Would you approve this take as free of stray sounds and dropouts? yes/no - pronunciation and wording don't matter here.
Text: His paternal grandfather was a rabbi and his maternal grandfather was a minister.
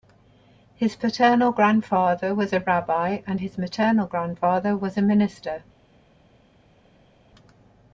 yes